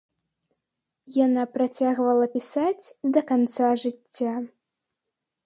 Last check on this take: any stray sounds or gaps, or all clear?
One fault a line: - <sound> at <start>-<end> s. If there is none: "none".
none